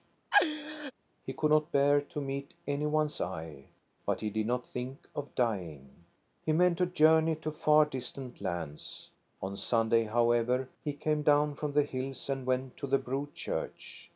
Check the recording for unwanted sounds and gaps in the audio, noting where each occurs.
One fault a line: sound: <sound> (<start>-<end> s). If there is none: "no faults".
sound: laugh (0.3-0.9 s)